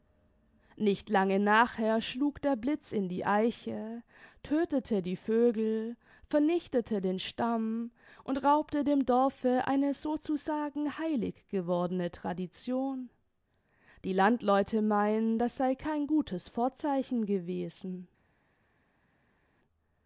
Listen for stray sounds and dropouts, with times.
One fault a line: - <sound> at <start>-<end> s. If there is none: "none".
none